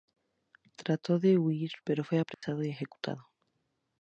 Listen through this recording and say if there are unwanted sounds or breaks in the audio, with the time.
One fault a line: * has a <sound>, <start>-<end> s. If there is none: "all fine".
* has a dropout, 2.3-2.4 s